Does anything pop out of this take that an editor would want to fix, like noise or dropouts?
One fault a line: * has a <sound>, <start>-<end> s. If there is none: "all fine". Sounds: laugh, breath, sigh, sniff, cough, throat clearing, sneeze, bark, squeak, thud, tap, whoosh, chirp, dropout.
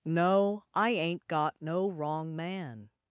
all fine